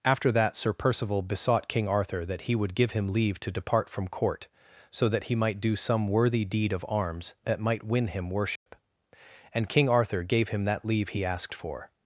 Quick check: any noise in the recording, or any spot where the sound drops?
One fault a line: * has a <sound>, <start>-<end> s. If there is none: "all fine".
* has a dropout, 8.6-8.7 s